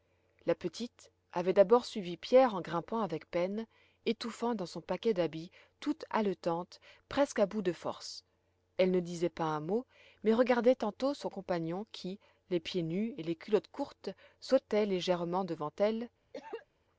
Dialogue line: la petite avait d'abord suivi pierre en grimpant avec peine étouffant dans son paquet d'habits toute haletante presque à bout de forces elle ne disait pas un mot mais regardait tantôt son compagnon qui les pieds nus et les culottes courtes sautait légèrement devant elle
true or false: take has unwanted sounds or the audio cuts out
true